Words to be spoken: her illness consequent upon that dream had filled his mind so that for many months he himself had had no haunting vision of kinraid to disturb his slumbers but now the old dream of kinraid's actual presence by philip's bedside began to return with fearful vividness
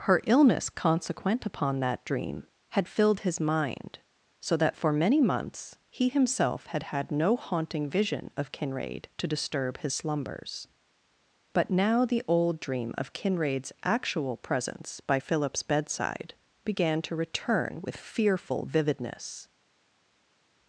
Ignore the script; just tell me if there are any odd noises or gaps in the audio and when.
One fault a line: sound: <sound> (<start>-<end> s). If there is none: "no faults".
no faults